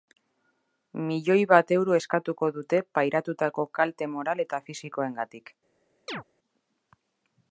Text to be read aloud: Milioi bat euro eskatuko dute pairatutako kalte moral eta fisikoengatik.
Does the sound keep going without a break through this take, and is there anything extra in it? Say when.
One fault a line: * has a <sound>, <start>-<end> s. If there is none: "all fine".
* has a chirp, 6.1-6.2 s